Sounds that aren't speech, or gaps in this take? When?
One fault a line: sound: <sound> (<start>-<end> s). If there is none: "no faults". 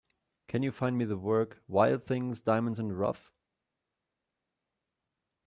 no faults